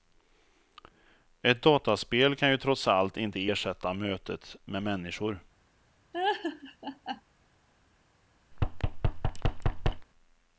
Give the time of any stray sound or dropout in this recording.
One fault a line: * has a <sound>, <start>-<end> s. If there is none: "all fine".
* has a laugh, 6.1-7.2 s
* has a thud, 8.5-10.1 s